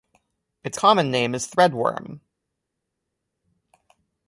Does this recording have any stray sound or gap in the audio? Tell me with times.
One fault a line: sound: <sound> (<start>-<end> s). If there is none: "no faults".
no faults